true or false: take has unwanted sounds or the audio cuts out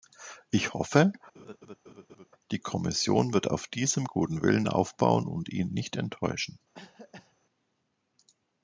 true